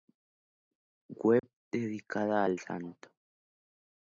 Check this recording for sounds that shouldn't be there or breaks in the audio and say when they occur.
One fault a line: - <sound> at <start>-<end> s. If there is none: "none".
- dropout at 1.4-1.4 s